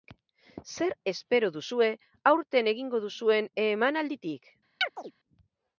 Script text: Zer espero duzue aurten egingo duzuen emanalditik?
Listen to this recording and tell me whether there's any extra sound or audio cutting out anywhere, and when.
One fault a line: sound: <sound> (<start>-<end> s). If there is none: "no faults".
sound: chirp (4.8-5.1 s)